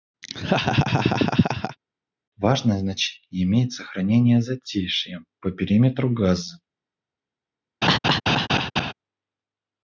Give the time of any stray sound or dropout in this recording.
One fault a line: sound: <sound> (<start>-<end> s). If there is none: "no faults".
sound: laugh (0.2-1.8 s)
sound: laugh (7.8-8.9 s)